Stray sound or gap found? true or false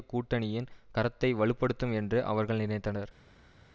false